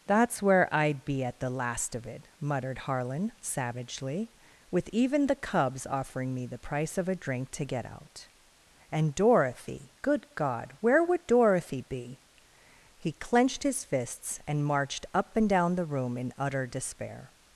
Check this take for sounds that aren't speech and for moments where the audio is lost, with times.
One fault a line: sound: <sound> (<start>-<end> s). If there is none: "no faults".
no faults